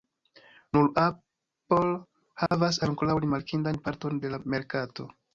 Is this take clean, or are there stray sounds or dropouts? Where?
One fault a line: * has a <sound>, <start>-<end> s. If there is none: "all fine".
* has a dropout, 2.5-2.5 s